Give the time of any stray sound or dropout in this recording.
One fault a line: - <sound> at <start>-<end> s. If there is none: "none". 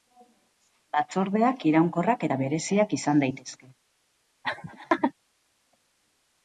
- laugh at 4.4-5.1 s